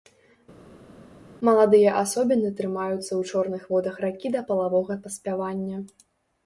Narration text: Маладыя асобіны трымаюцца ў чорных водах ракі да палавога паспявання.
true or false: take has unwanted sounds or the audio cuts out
false